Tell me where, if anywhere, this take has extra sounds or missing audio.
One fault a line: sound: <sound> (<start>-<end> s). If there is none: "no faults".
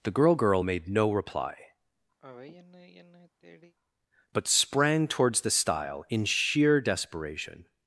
sound: sigh (2.2-3.7 s)